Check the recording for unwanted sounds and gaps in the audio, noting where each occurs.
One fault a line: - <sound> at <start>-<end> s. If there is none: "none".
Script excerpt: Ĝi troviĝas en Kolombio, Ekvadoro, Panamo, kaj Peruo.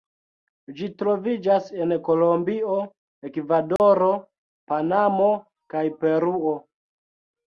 - dropout at 3.8-3.8 s